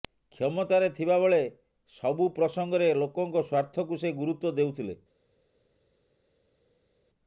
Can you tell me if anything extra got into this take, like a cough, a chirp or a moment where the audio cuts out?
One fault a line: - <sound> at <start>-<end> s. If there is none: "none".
none